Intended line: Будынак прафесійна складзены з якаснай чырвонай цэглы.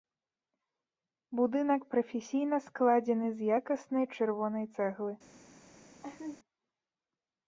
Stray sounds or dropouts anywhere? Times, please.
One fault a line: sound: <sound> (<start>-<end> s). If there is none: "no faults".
sound: laugh (6.0-6.4 s)